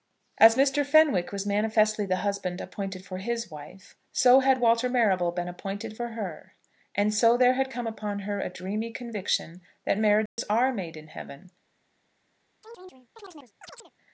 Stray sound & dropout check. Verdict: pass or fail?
fail